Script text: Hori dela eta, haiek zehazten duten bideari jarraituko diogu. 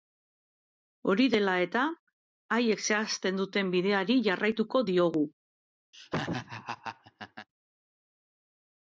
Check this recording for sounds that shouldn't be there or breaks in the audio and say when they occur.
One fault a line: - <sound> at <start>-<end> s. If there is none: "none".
- laugh at 5.9-7.5 s